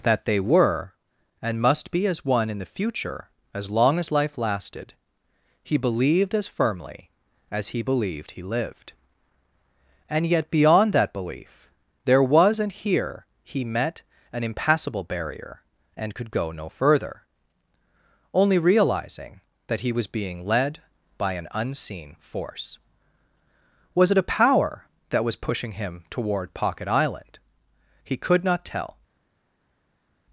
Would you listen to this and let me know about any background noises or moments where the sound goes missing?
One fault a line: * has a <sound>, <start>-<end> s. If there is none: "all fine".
all fine